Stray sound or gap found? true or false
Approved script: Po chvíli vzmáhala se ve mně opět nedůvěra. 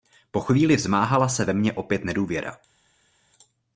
false